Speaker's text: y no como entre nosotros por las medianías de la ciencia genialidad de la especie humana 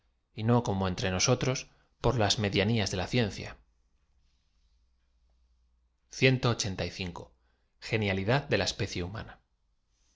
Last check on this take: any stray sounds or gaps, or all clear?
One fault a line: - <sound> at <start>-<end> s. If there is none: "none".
none